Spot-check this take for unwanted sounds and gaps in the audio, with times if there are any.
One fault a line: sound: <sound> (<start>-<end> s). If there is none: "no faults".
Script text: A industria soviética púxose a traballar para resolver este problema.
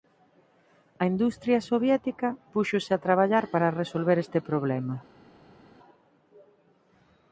no faults